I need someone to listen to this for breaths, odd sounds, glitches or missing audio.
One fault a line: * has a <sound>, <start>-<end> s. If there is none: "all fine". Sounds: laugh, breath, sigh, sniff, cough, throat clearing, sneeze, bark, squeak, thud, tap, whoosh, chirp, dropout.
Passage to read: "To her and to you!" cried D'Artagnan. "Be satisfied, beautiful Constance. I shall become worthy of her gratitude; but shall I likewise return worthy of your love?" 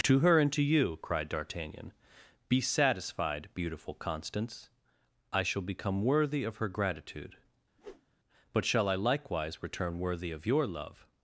* has a whoosh, 7.8-8.1 s